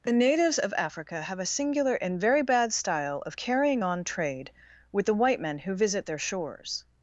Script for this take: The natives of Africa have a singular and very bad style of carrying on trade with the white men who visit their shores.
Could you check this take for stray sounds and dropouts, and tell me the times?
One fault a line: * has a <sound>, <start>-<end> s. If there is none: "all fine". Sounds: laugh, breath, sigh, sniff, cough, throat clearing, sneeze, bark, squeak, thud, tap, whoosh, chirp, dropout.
all fine